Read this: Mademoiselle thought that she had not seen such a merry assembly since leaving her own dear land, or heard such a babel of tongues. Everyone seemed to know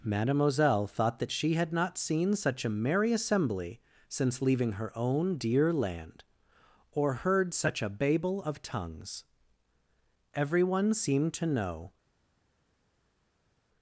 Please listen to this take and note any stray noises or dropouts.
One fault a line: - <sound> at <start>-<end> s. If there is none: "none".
none